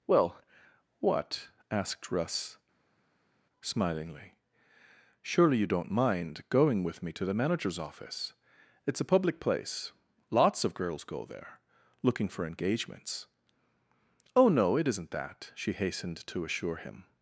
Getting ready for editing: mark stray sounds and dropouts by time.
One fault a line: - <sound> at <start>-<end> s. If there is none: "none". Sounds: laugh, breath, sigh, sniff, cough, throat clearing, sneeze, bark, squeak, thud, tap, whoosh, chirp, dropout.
none